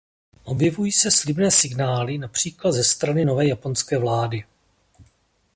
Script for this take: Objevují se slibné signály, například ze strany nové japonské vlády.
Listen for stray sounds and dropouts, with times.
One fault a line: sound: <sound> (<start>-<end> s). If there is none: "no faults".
no faults